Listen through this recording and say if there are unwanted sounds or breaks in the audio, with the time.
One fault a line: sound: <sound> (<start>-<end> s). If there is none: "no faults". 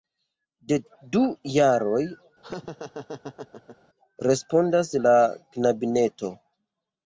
sound: laugh (2.4-3.8 s)